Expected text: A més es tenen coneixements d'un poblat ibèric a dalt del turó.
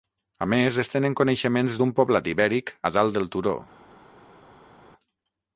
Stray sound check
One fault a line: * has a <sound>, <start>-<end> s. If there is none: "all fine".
all fine